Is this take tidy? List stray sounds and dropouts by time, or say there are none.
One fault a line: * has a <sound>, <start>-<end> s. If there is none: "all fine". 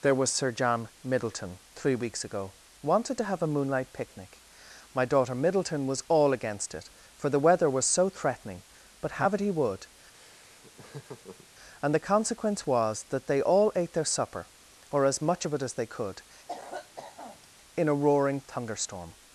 * has a laugh, 10.1-11.5 s
* has a cough, 16.5-17.5 s